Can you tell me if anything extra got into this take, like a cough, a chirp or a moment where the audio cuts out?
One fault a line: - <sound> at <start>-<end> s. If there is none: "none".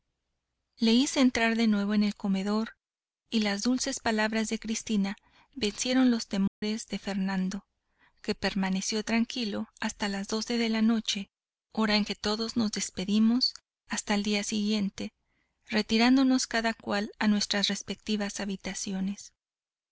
- dropout at 6.5-6.6 s